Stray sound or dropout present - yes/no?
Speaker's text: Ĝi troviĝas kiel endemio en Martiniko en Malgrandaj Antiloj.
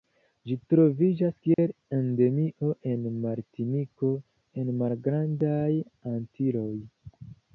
yes